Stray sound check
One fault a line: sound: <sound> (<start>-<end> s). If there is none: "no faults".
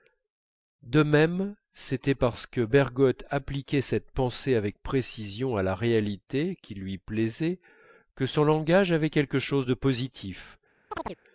sound: chirp (10.9-11.2 s)